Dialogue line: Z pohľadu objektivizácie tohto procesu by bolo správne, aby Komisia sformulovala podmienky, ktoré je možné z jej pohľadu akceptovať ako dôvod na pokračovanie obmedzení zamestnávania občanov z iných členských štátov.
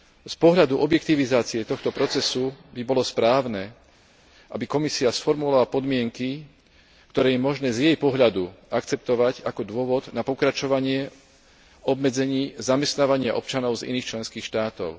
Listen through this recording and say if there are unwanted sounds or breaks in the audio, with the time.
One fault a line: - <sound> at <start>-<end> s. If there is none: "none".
none